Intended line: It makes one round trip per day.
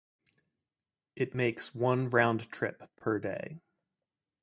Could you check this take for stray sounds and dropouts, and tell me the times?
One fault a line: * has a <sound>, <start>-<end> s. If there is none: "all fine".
all fine